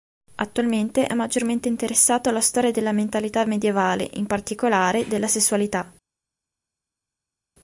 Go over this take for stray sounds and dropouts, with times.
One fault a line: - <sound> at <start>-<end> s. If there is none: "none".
none